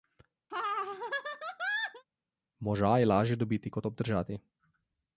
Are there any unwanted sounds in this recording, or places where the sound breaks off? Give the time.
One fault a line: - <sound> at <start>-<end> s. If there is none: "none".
- laugh at 0.5-2.0 s